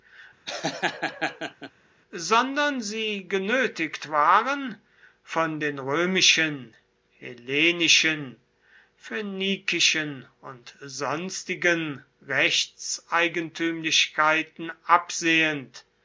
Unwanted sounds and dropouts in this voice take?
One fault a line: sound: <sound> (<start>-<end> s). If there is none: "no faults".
sound: laugh (0.5-1.7 s)